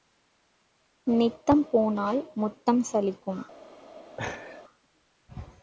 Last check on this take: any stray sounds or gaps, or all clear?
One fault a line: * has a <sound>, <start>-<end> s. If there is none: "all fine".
* has a laugh, 4.2-4.6 s